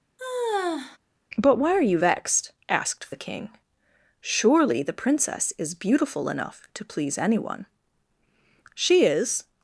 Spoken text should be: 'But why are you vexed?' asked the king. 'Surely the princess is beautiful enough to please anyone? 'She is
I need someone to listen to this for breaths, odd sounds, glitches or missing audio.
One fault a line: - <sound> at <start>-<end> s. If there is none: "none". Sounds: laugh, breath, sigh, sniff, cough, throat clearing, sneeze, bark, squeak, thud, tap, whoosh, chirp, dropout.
- sigh at 0.2-1.0 s